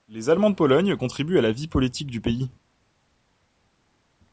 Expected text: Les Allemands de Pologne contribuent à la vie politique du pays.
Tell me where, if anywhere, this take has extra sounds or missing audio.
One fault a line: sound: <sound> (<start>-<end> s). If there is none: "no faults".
no faults